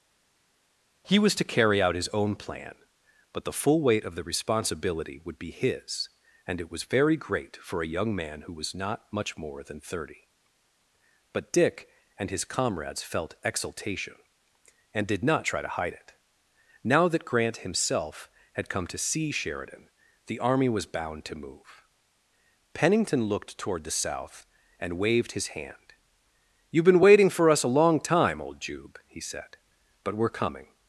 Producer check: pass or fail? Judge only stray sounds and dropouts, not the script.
pass